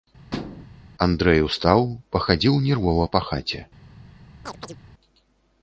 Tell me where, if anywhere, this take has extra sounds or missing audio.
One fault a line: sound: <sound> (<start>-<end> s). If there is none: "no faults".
sound: thud (0.3-0.7 s)
sound: chirp (4.4-4.8 s)